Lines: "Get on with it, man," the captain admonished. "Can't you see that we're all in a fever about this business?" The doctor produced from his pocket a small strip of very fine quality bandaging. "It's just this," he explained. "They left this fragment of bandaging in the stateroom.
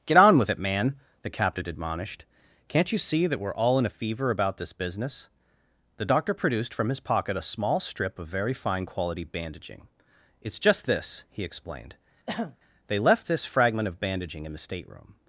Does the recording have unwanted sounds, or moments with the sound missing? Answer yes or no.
yes